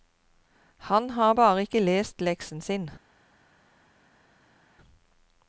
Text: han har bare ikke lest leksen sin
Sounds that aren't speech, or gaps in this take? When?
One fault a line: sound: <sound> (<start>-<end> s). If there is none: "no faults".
no faults